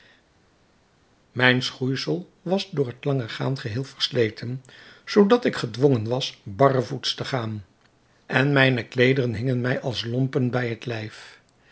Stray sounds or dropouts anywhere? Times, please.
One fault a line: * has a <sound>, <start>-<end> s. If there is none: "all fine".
all fine